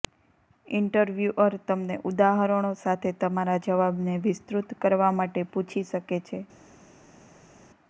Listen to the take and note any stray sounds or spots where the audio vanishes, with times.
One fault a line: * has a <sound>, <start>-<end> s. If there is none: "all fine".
all fine